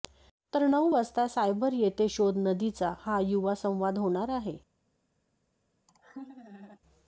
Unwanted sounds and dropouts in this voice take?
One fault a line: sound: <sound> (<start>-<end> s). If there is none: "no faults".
sound: laugh (5.9-6.8 s)